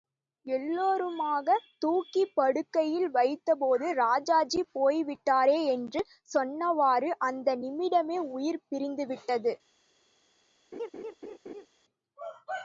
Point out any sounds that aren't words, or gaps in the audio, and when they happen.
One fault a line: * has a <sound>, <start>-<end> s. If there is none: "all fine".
* has a laugh, 10.7-11.7 s